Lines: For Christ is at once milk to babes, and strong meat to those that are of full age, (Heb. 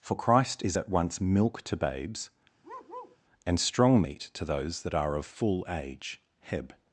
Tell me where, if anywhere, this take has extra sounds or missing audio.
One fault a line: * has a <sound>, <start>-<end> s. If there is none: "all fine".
* has a bark, 2.6-3.2 s